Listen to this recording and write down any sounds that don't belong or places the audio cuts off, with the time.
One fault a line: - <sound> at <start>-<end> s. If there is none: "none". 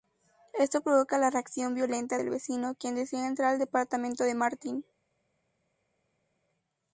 none